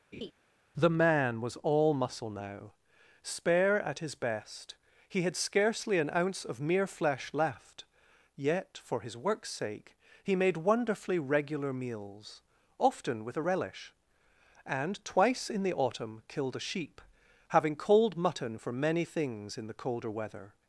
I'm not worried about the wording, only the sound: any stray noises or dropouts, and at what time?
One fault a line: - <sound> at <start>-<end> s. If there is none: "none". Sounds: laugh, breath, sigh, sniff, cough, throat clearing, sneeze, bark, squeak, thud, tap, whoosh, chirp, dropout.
- laugh at 0.1-0.3 s